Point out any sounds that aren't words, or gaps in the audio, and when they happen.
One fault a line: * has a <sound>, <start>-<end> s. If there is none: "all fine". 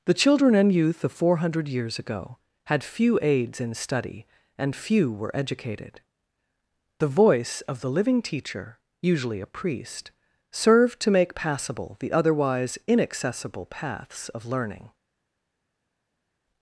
all fine